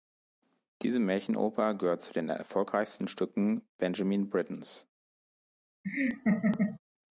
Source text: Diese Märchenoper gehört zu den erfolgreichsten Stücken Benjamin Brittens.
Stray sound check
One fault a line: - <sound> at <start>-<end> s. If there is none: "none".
- laugh at 5.8-6.8 s